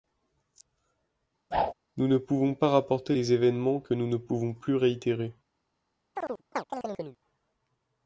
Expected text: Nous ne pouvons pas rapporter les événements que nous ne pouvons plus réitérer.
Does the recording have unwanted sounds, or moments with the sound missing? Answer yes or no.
yes